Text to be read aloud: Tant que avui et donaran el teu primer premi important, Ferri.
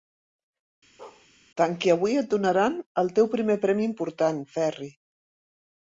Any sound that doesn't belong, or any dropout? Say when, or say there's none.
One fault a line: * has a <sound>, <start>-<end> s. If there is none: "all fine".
* has a bark, 1.0-1.3 s